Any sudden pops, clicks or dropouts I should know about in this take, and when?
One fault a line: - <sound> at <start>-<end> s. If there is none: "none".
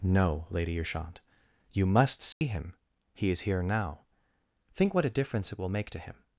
- dropout at 2.3-2.4 s